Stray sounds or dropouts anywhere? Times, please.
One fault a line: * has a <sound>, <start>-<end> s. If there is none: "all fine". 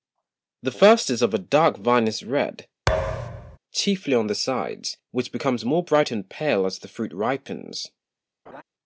* has a thud, 2.9-3.6 s
* has a laugh, 8.5-8.6 s